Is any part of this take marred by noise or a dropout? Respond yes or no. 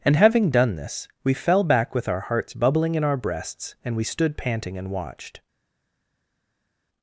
no